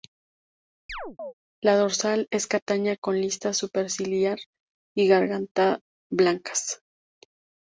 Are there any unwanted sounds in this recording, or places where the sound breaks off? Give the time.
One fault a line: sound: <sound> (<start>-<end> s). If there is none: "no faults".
sound: chirp (0.9-1.3 s)